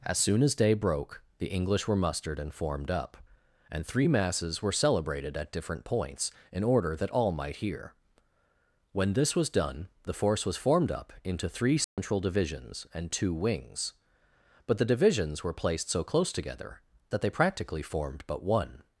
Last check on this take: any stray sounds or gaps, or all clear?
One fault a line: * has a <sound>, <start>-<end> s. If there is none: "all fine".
* has a dropout, 11.8-12.0 s